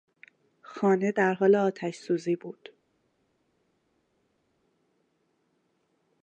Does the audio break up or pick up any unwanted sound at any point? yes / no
no